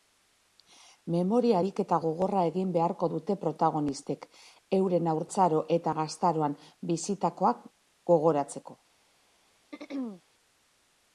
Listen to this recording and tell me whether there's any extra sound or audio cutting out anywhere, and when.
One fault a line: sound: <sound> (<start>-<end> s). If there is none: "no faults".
sound: throat clearing (9.7-10.2 s)